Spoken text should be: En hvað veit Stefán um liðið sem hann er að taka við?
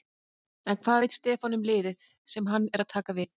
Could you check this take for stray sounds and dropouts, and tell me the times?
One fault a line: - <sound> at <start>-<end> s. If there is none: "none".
none